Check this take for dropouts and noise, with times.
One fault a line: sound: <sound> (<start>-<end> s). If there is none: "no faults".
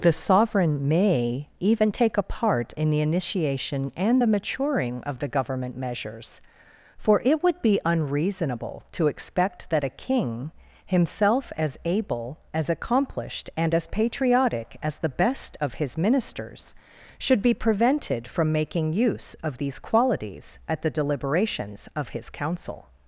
no faults